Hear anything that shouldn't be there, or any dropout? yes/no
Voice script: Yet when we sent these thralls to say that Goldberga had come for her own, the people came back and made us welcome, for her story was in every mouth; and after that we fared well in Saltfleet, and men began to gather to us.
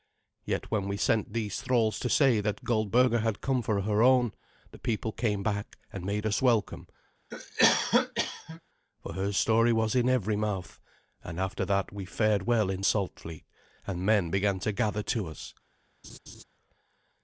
yes